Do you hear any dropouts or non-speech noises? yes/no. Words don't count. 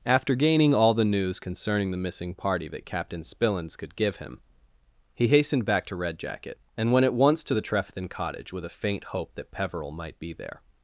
no